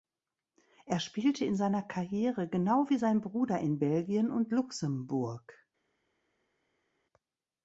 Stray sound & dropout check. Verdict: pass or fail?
pass